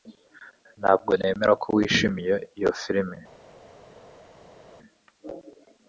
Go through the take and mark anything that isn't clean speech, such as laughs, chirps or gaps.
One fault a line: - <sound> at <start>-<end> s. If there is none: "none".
none